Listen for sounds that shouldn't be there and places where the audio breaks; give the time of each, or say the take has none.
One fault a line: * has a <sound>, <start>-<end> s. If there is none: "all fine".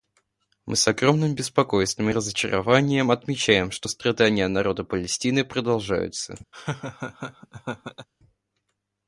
* has a laugh, 6.5-8.1 s